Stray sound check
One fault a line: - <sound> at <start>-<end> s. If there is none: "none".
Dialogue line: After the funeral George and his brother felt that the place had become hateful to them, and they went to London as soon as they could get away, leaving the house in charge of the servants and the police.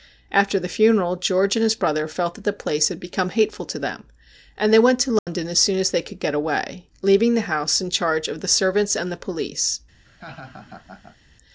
- dropout at 5.2-5.3 s
- laugh at 10.0-11.2 s